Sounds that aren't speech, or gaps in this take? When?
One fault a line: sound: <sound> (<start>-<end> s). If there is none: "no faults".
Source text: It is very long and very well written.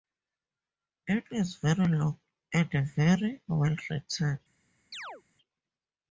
sound: chirp (4.9-5.2 s)